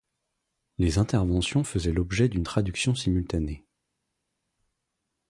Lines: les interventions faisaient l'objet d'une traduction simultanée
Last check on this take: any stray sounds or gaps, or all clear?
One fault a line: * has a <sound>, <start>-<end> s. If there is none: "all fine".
all fine